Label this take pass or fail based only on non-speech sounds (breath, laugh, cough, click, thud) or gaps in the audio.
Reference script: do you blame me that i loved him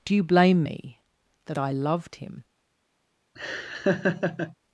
fail